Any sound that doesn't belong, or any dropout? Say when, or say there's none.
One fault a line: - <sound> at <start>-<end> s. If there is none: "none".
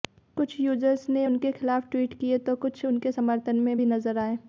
none